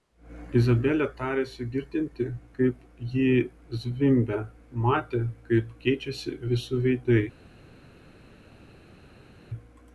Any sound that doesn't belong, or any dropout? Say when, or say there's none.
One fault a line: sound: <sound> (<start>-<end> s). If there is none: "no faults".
no faults